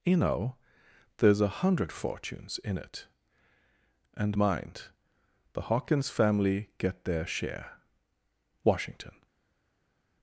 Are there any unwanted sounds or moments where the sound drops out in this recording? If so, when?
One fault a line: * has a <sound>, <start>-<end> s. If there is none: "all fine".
all fine